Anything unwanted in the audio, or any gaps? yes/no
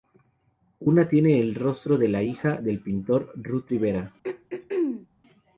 yes